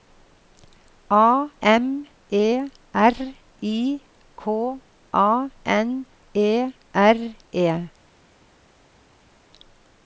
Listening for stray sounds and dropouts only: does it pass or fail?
pass